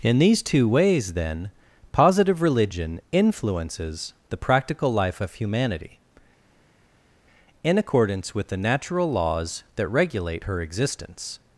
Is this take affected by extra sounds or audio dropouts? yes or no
no